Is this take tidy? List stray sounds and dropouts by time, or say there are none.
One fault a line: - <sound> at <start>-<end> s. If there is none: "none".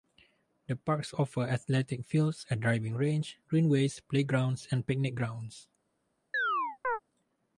- chirp at 6.3-7.0 s